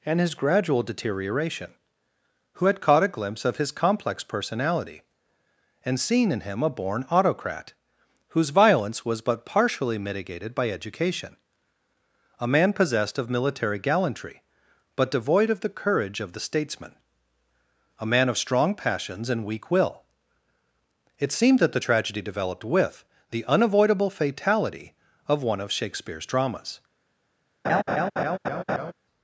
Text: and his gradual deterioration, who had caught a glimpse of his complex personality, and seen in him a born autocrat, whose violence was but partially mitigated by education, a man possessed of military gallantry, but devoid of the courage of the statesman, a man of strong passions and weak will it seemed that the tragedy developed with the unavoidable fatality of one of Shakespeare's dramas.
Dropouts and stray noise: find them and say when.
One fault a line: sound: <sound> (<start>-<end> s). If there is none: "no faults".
sound: laugh (27.6-28.9 s)